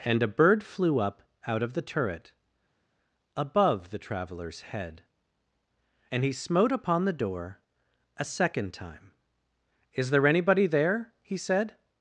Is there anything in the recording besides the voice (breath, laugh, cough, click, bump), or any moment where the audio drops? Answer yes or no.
no